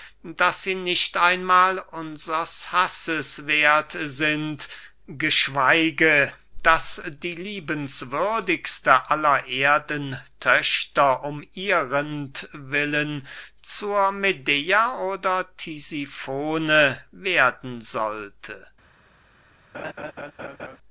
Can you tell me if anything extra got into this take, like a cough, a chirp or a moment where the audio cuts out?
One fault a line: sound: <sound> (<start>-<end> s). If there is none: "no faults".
sound: laugh (19.7-20.8 s)